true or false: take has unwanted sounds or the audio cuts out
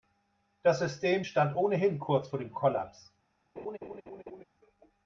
true